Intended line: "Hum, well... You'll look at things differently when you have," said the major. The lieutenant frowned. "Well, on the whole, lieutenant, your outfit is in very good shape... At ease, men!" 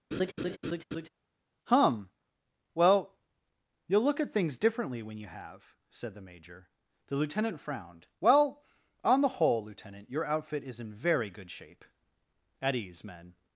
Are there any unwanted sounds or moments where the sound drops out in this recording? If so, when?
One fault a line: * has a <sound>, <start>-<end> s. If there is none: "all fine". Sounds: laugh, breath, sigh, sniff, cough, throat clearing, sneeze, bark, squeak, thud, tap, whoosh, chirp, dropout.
* has a laugh, 0.1-1.1 s